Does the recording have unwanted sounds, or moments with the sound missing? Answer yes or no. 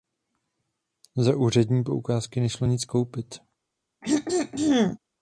yes